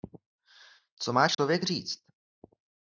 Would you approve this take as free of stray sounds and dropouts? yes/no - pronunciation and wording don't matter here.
no